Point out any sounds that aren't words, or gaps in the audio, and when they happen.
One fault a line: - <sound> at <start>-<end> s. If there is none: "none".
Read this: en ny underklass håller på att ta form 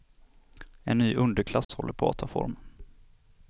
- dropout at 1.6-1.7 s